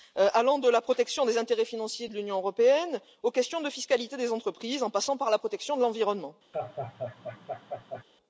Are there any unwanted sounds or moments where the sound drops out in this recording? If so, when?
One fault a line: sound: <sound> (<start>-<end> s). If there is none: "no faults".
sound: laugh (6.5-8.0 s)